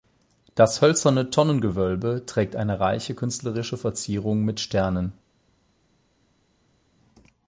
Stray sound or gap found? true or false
false